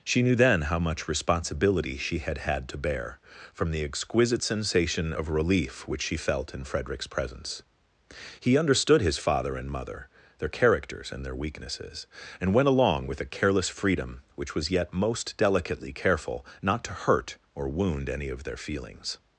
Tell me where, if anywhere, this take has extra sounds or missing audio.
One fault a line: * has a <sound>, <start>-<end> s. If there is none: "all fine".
all fine